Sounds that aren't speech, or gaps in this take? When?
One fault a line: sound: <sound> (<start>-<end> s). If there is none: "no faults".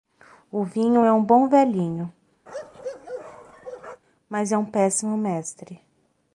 sound: bark (2.5-4.0 s)